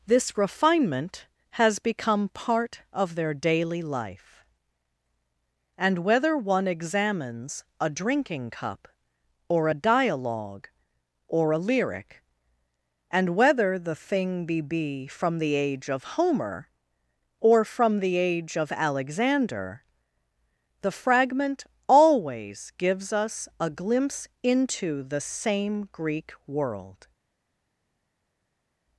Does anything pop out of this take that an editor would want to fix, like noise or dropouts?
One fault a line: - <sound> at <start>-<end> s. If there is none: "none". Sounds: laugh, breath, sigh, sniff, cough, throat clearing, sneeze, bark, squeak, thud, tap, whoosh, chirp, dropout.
none